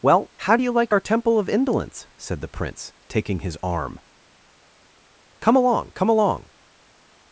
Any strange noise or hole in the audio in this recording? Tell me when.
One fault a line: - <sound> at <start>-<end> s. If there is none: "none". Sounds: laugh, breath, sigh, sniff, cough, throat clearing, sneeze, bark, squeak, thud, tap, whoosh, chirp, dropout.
none